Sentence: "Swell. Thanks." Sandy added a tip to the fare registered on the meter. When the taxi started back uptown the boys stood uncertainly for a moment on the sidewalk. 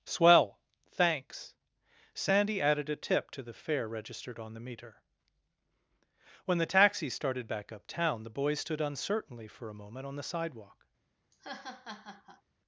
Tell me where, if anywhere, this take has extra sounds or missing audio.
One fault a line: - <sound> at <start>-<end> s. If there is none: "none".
- laugh at 11.3-12.4 s